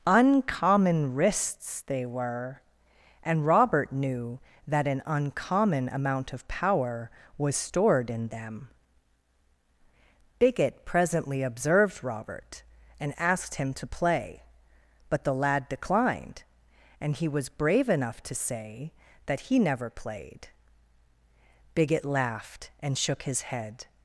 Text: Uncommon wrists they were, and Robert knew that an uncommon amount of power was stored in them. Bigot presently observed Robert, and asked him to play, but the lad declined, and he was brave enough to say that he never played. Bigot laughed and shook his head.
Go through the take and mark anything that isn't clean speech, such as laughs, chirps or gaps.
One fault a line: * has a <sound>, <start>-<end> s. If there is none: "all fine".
all fine